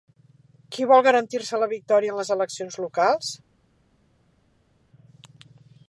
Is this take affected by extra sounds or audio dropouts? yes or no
no